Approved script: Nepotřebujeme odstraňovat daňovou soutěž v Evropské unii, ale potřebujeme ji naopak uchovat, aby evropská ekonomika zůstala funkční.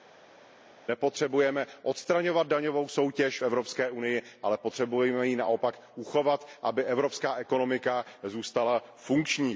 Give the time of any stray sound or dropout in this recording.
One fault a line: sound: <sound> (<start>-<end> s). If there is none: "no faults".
no faults